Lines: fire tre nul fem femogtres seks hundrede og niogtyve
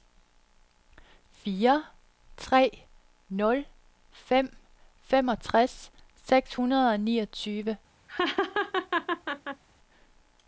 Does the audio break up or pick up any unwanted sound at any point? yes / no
yes